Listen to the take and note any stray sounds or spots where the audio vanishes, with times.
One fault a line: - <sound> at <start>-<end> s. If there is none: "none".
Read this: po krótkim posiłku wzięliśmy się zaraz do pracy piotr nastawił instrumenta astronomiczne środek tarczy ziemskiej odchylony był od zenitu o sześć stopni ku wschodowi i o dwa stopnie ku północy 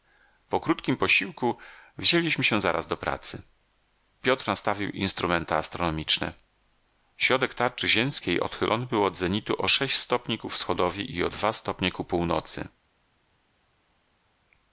none